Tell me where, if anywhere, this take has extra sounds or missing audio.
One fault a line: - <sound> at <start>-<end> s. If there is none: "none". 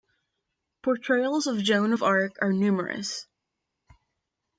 none